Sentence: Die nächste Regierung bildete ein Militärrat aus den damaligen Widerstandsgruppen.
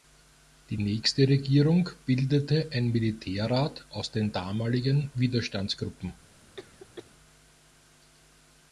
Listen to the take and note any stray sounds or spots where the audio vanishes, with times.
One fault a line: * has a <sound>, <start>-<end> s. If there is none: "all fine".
* has a cough, 6.6-7.1 s